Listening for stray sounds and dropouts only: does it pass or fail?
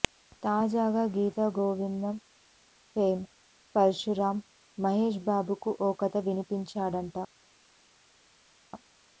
pass